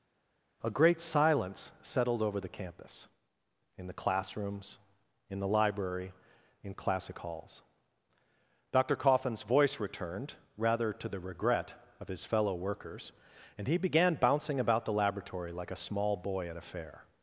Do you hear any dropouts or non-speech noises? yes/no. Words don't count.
no